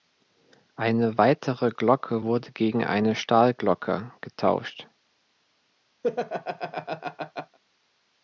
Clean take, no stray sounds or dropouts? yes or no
no